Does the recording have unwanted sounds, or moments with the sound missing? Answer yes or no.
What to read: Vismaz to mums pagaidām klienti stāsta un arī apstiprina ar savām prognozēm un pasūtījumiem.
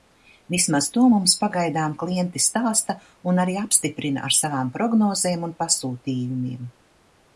no